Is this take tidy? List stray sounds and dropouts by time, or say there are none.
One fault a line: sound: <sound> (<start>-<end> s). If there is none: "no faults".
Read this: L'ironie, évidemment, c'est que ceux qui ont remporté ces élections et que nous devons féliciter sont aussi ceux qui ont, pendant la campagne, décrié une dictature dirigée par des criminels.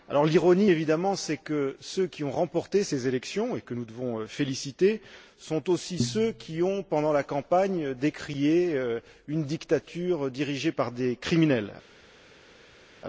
no faults